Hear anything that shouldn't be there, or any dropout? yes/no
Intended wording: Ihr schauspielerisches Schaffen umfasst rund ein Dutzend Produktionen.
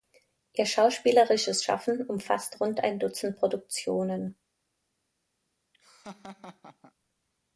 yes